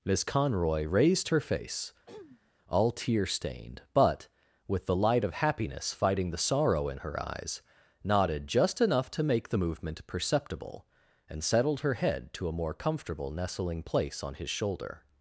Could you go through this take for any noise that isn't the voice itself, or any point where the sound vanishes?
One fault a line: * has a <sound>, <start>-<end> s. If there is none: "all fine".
* has a throat clearing, 2.1-2.5 s